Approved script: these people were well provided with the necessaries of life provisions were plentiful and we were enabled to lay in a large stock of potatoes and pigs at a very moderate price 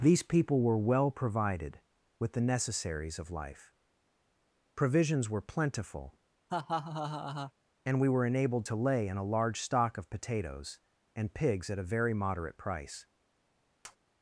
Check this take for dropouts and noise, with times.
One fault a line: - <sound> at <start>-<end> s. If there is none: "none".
- laugh at 6.5-7.5 s
- tap at 13.8-14.0 s